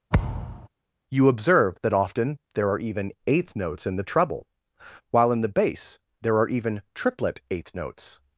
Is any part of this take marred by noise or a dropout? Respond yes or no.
yes